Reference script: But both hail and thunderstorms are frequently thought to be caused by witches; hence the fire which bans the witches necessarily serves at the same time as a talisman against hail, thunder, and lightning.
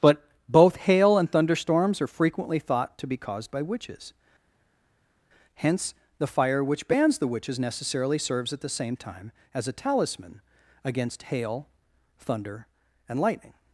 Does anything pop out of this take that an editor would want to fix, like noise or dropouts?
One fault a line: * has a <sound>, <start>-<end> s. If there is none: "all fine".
all fine